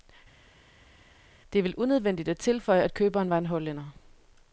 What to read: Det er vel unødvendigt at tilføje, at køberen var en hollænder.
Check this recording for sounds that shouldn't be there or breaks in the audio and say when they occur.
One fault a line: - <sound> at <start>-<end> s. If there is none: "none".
none